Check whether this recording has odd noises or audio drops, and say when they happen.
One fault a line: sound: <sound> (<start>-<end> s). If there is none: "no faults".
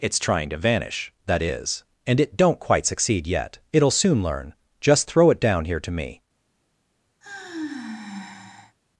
sound: sigh (7.2-8.8 s)